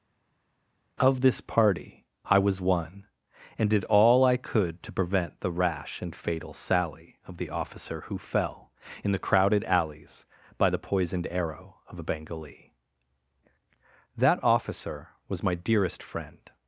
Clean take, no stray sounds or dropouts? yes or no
yes